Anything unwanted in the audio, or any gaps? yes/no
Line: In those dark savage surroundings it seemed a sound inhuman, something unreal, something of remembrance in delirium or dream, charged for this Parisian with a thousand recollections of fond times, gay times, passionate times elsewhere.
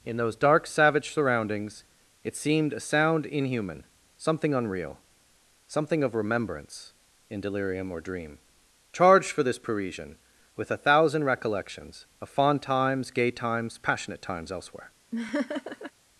yes